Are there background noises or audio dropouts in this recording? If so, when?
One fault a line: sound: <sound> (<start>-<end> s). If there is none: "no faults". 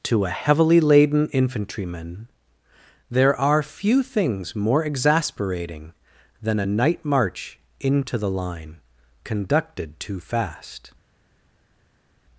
no faults